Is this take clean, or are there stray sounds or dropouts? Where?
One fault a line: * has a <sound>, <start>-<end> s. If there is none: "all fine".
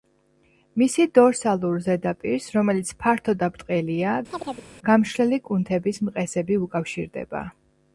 * has a chirp, 4.3-4.7 s